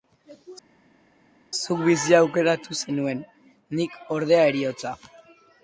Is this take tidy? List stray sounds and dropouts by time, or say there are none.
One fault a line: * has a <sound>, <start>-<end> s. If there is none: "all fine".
all fine